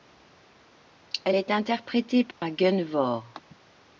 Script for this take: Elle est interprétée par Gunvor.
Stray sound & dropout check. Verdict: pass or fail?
fail